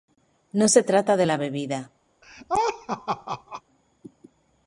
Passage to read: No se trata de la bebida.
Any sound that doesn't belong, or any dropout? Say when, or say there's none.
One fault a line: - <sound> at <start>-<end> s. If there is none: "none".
- laugh at 2.2-3.6 s